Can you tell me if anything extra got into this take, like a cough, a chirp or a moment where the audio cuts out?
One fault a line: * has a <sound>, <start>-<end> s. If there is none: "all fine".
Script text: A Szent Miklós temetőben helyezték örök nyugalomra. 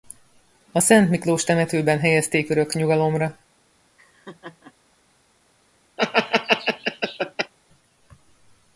* has a laugh, 4.0-4.7 s
* has a laugh, 6.0-7.5 s